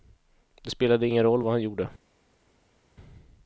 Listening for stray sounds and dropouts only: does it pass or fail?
pass